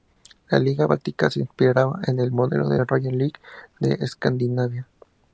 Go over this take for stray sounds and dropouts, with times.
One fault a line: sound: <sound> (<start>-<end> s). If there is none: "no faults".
no faults